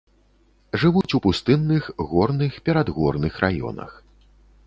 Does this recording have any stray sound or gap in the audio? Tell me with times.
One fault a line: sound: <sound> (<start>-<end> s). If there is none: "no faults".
sound: dropout (1.0-1.0 s)